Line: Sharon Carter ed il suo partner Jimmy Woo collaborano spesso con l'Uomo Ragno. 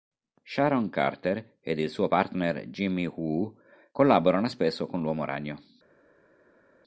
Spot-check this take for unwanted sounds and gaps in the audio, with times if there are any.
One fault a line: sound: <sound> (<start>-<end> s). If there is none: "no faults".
no faults